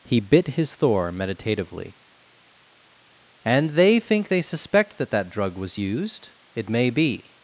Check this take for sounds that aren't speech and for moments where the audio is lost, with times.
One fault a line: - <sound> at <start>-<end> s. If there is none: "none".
none